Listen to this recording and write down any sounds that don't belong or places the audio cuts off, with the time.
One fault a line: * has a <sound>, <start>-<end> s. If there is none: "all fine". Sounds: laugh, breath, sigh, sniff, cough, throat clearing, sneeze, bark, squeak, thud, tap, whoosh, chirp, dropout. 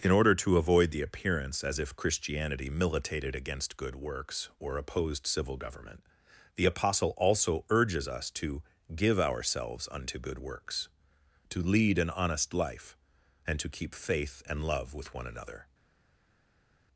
all fine